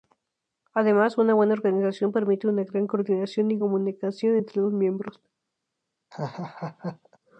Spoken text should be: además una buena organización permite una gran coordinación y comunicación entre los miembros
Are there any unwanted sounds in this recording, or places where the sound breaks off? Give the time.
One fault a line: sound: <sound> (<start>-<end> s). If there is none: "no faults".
sound: laugh (6.1-7.2 s)